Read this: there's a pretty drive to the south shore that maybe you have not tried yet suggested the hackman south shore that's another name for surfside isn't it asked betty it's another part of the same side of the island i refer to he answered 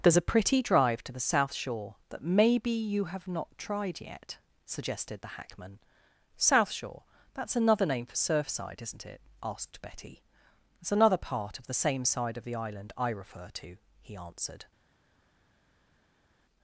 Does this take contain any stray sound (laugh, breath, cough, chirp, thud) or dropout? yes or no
no